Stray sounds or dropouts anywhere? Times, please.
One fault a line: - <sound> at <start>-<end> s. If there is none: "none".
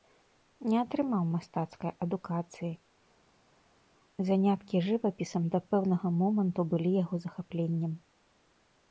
none